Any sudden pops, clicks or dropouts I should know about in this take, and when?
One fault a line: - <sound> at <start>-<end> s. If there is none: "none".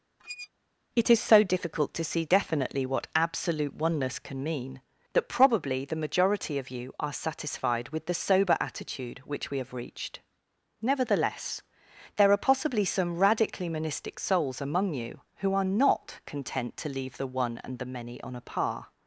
- squeak at 0.2-0.5 s